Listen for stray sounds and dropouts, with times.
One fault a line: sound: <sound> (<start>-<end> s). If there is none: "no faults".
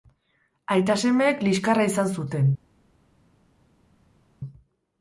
no faults